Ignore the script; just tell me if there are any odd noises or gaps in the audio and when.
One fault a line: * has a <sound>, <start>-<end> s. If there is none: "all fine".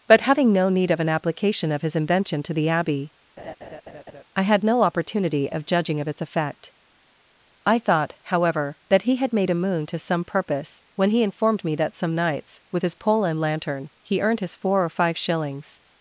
* has a laugh, 3.4-4.2 s